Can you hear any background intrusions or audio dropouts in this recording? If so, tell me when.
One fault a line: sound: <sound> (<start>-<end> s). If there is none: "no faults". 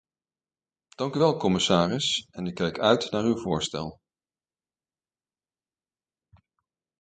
no faults